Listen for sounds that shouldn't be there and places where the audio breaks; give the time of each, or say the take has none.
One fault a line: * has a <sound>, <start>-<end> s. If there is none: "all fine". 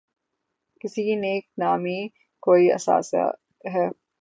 all fine